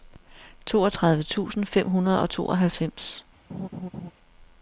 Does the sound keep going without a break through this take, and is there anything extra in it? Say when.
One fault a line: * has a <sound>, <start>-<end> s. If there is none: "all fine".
* has a laugh, 3.5-4.1 s